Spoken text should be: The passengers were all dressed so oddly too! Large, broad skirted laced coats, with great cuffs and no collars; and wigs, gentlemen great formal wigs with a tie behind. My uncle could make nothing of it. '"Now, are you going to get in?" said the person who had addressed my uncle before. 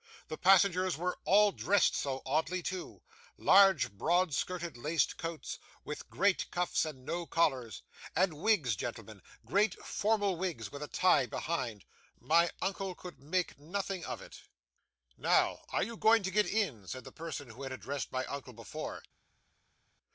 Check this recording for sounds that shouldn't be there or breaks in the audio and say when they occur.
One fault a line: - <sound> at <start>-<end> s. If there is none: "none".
none